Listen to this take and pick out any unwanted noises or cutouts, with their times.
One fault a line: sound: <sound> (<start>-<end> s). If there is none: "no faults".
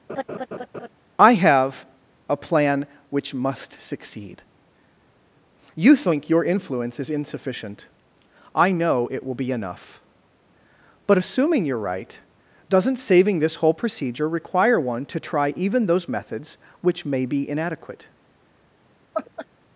sound: laugh (0.1-0.9 s)
sound: laugh (19.1-19.5 s)